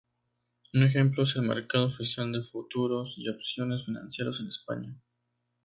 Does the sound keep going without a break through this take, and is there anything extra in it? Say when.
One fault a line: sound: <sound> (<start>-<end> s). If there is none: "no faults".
no faults